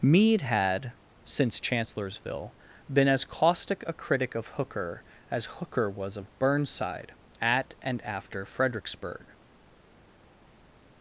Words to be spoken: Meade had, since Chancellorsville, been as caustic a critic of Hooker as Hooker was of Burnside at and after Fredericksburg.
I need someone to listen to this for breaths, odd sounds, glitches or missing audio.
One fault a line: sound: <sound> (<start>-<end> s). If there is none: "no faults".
no faults